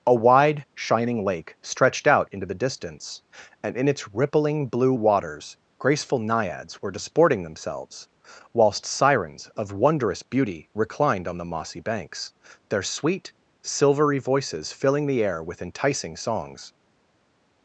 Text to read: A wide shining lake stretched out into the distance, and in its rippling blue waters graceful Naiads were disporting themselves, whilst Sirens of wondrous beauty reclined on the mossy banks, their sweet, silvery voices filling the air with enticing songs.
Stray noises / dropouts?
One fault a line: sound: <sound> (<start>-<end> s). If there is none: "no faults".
no faults